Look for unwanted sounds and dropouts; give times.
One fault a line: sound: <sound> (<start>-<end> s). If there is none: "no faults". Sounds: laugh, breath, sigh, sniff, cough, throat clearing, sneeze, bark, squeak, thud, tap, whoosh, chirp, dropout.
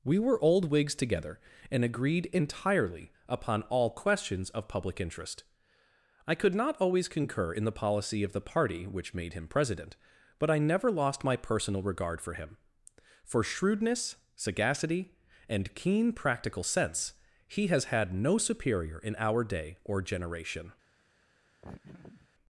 sound: laugh (21.6-22.3 s)